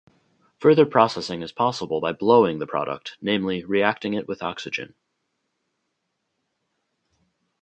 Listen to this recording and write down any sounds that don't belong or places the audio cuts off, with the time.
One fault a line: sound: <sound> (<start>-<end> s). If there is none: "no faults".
no faults